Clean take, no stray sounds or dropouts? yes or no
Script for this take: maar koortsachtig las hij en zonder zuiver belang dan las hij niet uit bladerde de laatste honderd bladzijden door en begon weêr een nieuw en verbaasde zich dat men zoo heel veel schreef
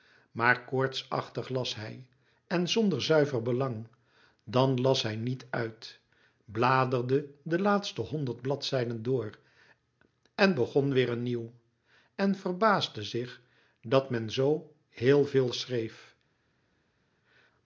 yes